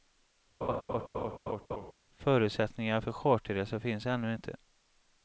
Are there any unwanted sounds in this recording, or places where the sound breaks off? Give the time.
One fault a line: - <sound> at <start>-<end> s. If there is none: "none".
- laugh at 0.6-1.9 s